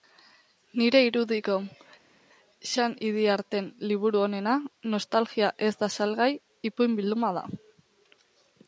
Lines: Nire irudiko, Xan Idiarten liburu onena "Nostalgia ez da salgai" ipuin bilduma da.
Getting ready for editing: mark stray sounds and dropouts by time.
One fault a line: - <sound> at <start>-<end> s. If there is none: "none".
none